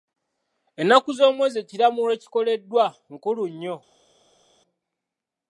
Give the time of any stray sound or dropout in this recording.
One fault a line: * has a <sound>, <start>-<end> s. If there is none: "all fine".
all fine